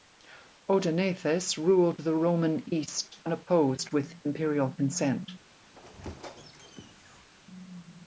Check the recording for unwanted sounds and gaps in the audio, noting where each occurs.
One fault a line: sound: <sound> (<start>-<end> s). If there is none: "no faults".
sound: squeak (5.7-7.3 s)